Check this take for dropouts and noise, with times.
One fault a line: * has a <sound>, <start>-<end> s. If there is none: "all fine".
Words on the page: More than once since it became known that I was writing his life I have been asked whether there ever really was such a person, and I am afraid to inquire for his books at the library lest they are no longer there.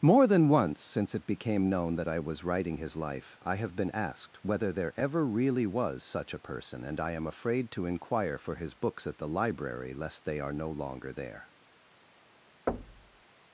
* has a thud, 12.7-13.2 s